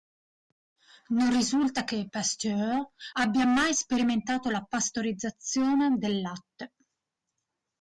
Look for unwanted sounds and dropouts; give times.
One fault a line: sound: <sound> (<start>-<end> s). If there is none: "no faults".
no faults